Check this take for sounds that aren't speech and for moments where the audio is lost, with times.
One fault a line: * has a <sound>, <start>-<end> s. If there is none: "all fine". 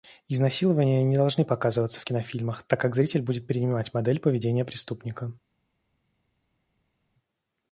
all fine